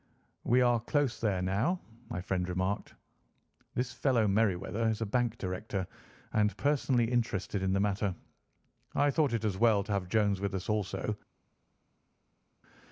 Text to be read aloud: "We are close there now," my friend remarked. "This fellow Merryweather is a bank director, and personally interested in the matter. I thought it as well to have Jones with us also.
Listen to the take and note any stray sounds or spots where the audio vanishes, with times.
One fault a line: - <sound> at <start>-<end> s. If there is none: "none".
none